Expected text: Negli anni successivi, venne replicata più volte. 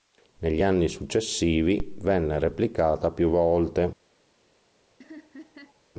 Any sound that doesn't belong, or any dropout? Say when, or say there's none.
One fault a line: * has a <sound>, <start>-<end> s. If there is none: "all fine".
* has a laugh, 5.0-5.8 s